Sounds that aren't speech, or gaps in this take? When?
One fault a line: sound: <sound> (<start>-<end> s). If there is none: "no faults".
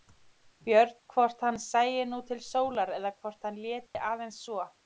sound: dropout (3.9-3.9 s)